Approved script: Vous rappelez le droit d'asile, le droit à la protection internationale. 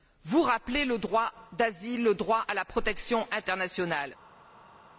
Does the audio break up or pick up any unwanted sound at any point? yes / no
no